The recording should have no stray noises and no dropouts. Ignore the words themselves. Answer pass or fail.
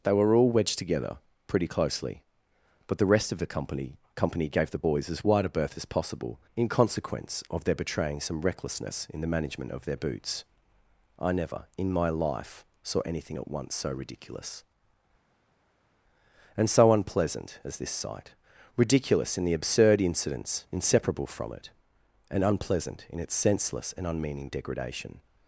pass